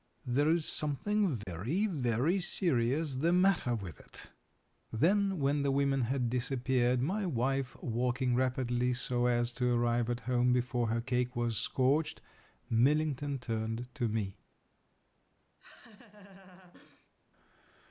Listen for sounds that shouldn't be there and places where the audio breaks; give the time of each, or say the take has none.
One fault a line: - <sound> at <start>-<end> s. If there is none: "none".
- dropout at 1.4-1.5 s
- laugh at 15.6-17.1 s